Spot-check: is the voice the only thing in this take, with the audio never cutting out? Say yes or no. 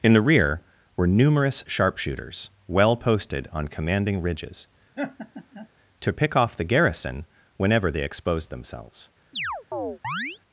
no